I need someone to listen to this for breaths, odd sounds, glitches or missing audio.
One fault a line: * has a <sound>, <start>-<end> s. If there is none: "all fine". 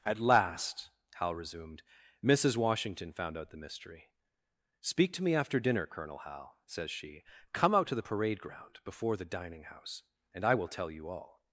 all fine